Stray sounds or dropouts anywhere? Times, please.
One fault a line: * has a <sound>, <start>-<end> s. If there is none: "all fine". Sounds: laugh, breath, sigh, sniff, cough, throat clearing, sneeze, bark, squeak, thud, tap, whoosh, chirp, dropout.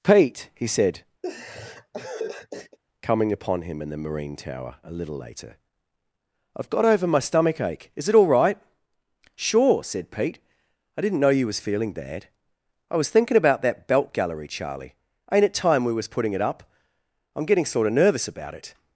* has a laugh, 1.2-2.8 s